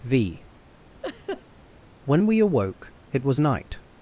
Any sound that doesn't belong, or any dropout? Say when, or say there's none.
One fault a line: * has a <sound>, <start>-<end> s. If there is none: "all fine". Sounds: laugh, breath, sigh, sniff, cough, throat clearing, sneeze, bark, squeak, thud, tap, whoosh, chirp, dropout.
* has a laugh, 1.0-1.4 s